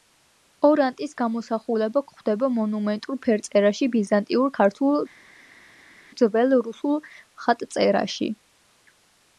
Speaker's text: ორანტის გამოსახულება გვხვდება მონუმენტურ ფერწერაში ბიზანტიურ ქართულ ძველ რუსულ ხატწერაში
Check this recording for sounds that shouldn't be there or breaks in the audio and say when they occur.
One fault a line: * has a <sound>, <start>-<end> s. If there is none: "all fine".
all fine